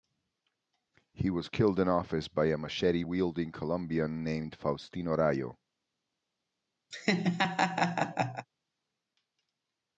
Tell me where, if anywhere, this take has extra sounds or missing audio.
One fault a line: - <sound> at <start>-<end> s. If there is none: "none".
- laugh at 6.9-8.5 s